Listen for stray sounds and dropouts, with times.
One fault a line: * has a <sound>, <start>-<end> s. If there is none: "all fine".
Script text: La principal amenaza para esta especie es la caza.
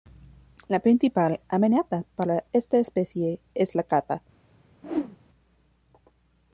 * has a whoosh, 4.8-5.2 s